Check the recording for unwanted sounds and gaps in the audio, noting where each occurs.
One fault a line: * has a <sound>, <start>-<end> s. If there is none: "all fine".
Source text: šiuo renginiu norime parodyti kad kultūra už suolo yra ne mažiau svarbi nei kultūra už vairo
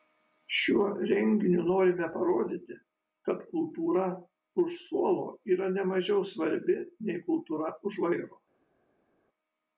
all fine